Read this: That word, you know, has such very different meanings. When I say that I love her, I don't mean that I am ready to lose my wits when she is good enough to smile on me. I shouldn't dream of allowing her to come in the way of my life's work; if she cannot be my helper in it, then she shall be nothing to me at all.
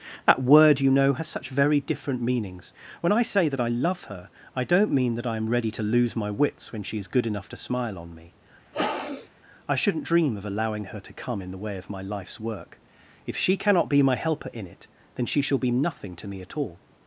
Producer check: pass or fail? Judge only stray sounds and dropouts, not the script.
fail